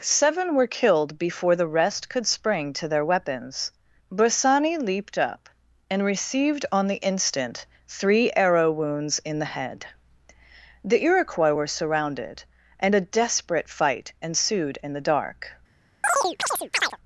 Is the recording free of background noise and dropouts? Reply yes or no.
no